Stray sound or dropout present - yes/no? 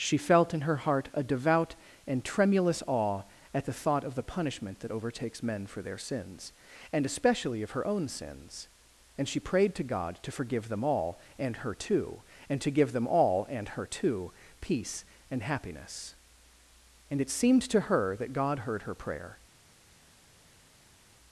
no